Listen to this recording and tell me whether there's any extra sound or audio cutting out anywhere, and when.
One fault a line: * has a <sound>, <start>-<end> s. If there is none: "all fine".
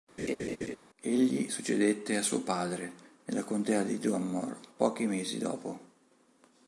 * has a laugh, 0.2-0.8 s